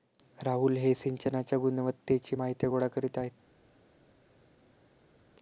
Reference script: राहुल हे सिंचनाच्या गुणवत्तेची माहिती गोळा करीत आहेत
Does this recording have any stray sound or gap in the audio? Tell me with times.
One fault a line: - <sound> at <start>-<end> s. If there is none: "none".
none